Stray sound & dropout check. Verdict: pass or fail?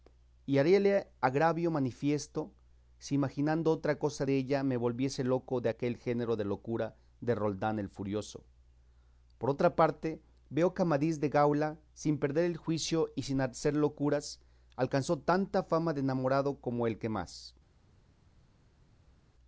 pass